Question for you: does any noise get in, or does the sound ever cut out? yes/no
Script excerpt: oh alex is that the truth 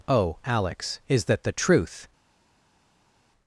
no